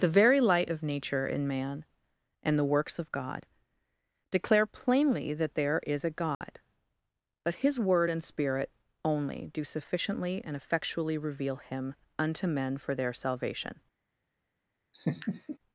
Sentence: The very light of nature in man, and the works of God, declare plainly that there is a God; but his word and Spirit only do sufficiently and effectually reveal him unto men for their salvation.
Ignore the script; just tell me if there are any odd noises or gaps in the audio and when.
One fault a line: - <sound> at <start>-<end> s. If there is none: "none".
- dropout at 6.3-6.4 s
- laugh at 14.9-15.6 s